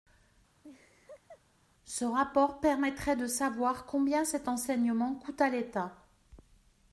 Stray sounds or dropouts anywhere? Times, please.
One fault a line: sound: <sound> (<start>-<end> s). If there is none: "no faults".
sound: laugh (0.6-1.4 s)